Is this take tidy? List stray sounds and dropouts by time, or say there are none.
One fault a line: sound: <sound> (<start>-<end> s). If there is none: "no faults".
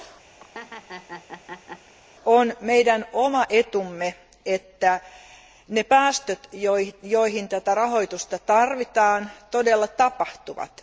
sound: laugh (0.4-1.9 s)